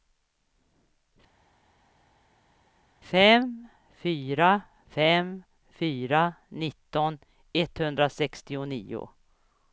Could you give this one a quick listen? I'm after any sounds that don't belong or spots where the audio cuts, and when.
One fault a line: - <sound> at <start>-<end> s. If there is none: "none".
none